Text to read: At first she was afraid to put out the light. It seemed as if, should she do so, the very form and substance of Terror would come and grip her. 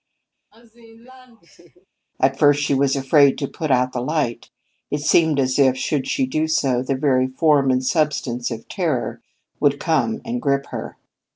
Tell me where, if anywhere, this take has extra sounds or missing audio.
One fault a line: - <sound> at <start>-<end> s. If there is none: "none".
- laugh at 0.5-1.9 s